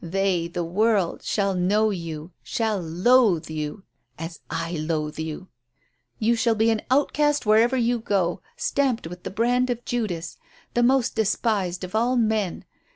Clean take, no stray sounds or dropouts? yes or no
yes